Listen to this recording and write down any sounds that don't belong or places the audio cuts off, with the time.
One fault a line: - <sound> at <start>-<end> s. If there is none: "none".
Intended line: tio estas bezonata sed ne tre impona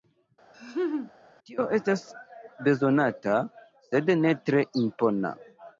- laugh at 0.5-1.1 s